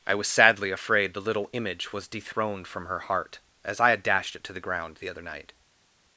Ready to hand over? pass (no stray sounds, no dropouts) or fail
pass